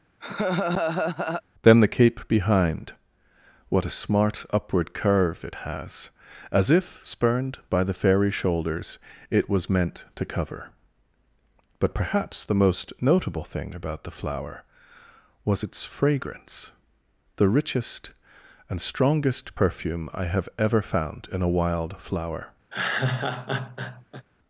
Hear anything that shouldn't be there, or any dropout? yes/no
yes